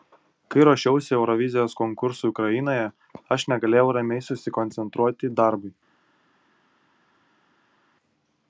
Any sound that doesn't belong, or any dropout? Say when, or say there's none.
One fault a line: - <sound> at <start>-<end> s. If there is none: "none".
none